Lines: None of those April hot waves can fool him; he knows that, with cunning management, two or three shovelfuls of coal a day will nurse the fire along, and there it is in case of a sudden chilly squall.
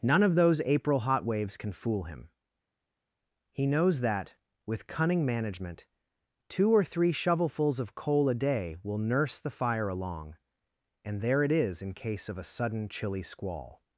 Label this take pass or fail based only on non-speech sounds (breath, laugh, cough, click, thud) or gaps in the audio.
pass